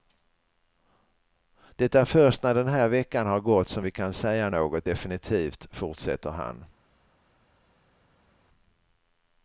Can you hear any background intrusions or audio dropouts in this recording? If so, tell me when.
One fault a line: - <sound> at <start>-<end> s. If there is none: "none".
none